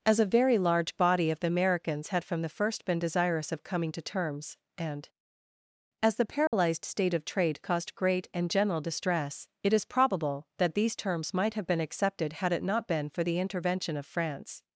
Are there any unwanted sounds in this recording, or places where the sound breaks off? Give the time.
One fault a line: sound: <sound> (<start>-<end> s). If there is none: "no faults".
sound: dropout (6.5-6.5 s)